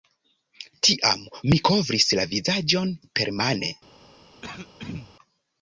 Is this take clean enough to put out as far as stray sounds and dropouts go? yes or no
no